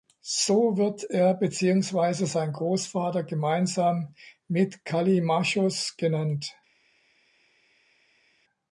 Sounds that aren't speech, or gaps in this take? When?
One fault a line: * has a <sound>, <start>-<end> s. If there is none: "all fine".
all fine